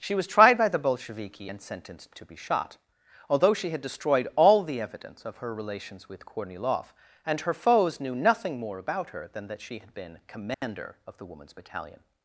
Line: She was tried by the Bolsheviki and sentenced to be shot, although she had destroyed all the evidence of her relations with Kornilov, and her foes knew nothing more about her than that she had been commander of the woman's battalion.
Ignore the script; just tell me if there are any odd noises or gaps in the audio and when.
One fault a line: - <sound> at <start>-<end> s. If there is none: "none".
- dropout at 10.5-10.6 s